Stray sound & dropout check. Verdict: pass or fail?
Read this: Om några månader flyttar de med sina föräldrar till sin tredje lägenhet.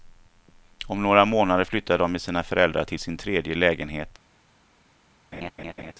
fail